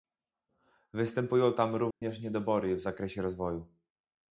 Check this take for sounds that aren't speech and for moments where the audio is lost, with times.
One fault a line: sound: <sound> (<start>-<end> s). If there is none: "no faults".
sound: dropout (1.9-2.0 s)